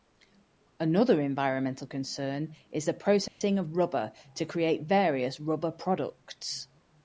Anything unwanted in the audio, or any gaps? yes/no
yes